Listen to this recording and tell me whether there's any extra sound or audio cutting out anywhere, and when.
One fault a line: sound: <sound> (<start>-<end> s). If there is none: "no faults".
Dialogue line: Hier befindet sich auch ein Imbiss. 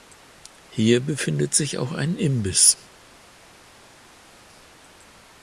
no faults